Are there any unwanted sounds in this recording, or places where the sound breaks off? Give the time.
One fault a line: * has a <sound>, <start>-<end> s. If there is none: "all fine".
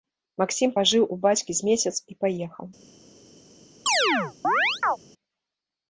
* has a chirp, 3.9-5.0 s